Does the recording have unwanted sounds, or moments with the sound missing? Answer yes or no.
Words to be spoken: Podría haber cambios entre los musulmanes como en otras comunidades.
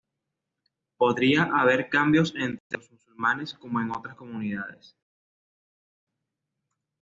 no